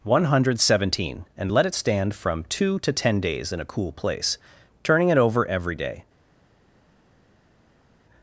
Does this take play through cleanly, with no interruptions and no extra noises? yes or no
yes